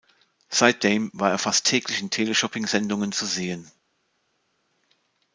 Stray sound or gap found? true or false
false